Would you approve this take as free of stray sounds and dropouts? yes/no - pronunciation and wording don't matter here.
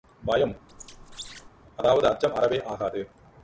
no